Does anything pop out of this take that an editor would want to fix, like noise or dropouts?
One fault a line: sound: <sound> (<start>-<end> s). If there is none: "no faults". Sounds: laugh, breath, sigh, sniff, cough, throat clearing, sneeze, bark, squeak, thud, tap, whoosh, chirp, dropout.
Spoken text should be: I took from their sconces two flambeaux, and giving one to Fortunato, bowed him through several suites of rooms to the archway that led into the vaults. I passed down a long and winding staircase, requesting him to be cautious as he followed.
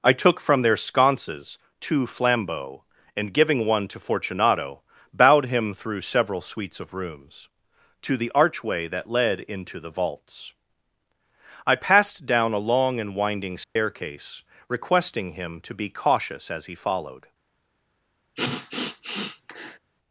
sound: dropout (13.6-13.8 s)
sound: sniff (18.4-19.8 s)